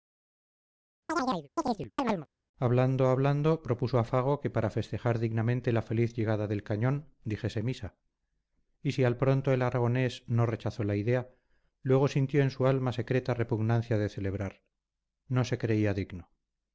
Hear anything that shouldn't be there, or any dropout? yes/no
yes